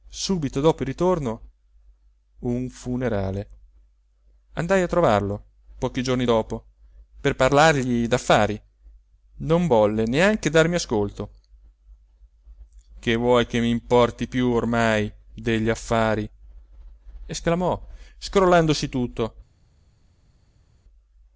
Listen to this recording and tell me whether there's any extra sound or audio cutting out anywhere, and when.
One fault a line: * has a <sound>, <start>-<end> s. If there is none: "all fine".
all fine